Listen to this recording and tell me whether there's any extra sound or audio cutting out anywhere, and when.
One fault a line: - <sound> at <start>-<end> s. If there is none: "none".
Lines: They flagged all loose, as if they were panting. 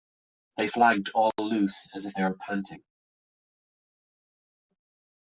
none